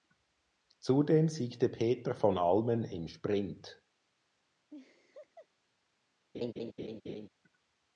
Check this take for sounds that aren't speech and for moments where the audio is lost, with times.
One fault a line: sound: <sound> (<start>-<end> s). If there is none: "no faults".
sound: laugh (4.7-5.5 s)
sound: laugh (6.3-7.3 s)